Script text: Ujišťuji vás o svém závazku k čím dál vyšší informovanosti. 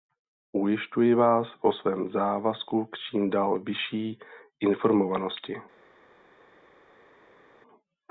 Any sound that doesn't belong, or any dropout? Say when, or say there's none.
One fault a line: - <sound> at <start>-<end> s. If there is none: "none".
none